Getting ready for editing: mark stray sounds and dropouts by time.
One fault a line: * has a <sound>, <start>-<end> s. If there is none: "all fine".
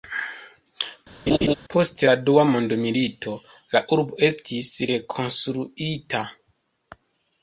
* has a laugh, 1.3-1.5 s